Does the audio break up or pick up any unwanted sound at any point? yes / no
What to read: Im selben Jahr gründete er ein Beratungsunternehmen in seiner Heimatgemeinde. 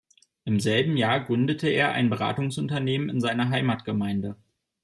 no